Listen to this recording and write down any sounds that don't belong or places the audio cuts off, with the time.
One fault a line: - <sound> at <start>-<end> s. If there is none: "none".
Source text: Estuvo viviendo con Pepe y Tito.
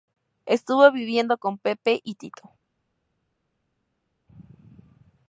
none